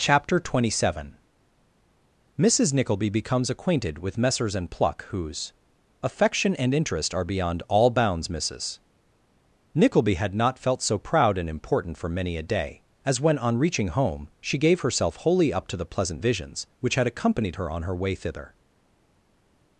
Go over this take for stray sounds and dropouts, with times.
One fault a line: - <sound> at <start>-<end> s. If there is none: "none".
none